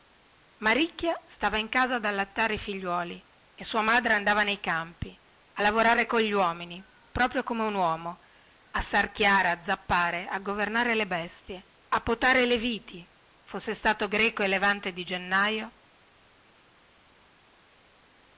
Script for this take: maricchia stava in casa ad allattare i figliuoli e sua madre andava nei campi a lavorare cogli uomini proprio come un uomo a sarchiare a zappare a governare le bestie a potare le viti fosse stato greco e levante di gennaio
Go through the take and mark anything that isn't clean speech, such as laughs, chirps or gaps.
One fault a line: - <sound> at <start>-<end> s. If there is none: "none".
none